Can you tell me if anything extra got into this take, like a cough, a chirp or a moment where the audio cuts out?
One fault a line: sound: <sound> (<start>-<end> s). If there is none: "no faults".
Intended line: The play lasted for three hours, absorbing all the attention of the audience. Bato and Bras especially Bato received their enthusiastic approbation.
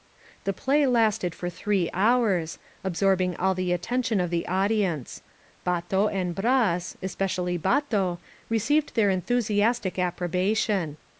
no faults